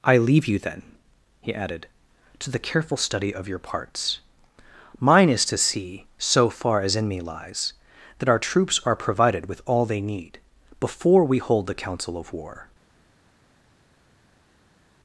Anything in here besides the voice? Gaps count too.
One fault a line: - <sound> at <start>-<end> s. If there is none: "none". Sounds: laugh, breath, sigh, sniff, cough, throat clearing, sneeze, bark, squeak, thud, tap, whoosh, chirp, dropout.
none